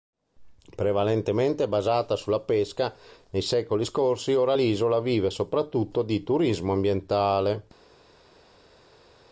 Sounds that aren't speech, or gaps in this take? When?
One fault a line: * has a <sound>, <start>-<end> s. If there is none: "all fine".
all fine